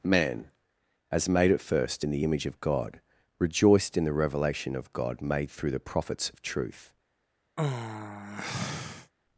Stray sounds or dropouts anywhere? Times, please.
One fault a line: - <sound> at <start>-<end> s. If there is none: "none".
- sigh at 7.6-9.1 s